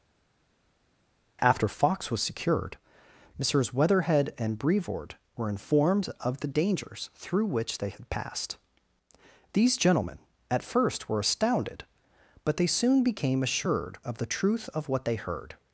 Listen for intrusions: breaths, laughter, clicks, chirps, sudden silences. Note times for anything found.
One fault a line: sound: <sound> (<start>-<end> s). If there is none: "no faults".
no faults